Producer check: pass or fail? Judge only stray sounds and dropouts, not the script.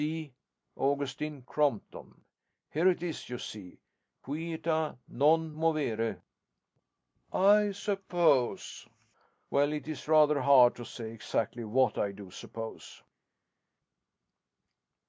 pass